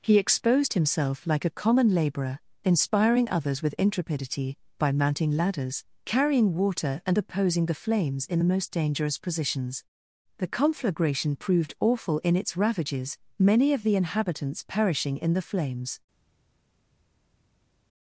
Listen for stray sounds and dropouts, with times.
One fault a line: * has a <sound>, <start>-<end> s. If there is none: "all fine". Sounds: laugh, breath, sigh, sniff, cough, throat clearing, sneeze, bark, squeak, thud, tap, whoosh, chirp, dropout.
all fine